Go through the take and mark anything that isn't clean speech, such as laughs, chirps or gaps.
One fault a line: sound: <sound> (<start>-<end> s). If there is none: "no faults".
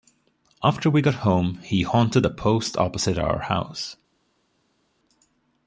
no faults